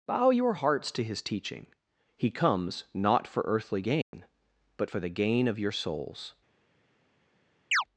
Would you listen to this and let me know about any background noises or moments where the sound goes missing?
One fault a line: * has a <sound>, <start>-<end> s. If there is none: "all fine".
* has a dropout, 4.0-4.1 s
* has a chirp, 7.7-7.8 s